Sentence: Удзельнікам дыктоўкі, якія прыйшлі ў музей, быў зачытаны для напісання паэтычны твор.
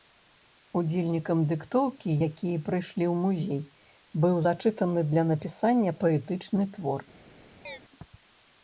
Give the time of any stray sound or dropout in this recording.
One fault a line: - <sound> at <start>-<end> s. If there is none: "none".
- chirp at 7.7-7.8 s